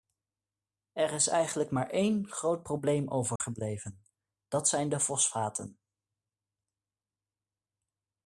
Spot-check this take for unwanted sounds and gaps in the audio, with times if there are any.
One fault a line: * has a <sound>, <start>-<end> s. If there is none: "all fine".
* has a dropout, 3.4-3.4 s